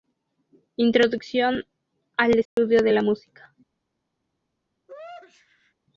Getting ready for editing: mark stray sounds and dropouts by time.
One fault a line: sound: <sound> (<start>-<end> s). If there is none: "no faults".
sound: dropout (2.5-2.6 s)
sound: sneeze (4.9-5.7 s)